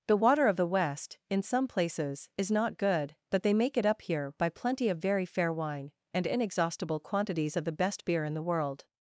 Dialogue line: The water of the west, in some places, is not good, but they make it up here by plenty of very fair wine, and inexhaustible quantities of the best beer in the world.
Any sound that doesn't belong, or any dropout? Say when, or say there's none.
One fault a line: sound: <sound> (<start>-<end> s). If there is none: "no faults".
no faults